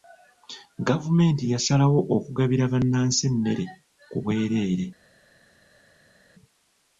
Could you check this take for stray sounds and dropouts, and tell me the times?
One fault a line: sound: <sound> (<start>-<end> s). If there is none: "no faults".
no faults